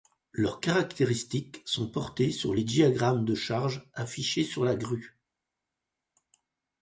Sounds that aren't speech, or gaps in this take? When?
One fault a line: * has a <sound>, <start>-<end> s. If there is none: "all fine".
all fine